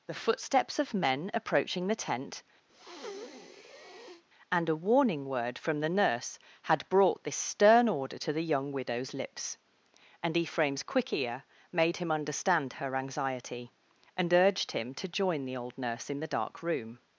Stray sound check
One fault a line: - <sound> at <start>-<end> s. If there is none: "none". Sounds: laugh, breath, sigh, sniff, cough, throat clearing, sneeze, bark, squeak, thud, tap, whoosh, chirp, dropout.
- breath at 2.7-4.2 s